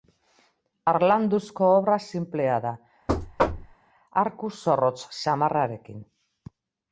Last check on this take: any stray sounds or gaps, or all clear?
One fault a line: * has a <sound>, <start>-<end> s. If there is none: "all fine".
* has a thud, 3.1-3.8 s